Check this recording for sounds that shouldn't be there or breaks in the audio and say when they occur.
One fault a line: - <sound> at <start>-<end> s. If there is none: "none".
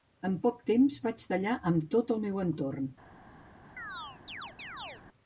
- chirp at 3.8-5.0 s